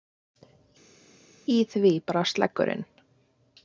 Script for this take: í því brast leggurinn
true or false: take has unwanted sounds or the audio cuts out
false